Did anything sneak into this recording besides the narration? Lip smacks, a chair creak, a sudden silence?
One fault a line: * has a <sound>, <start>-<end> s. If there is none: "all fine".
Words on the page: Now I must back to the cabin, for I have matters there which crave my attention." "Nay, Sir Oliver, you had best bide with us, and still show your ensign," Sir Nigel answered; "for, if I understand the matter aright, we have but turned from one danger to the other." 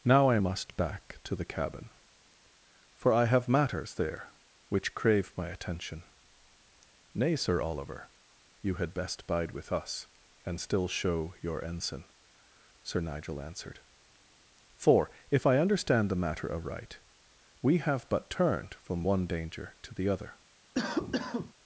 * has a cough, 20.7-21.5 s